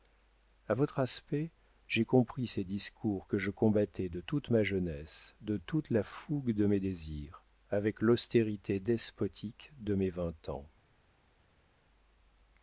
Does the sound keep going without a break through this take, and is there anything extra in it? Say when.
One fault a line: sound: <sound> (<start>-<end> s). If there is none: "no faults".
no faults